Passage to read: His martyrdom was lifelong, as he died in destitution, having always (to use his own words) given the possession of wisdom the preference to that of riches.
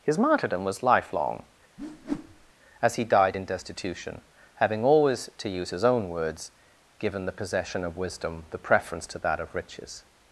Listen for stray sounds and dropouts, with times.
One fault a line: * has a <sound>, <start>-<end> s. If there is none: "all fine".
* has a whoosh, 1.8-2.5 s